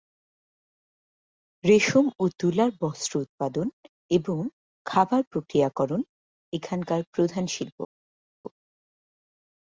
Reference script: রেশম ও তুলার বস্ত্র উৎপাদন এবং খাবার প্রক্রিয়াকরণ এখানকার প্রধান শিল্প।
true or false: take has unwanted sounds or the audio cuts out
false